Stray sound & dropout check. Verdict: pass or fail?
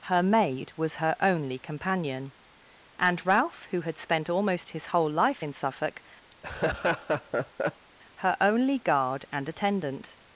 fail